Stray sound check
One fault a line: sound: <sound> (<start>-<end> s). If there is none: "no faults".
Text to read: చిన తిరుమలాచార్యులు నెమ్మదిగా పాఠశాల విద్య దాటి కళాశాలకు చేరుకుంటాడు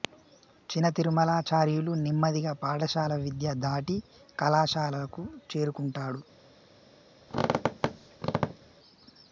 sound: squeak (7.3-8.8 s)